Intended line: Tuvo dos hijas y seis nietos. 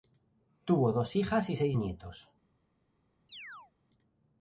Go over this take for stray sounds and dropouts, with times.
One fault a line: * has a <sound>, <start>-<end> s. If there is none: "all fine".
* has a chirp, 3.3-3.7 s